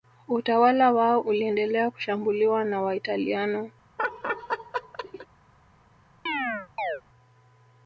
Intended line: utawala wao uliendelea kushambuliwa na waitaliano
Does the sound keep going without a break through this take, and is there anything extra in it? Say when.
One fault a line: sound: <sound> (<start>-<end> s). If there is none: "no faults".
sound: laugh (4.0-5.3 s)
sound: chirp (6.3-7.0 s)